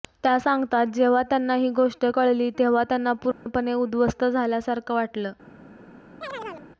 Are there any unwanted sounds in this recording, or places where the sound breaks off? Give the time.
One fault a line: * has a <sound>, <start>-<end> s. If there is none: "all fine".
* has a dropout, 3.3-3.5 s
* has a chirp, 6.2-6.7 s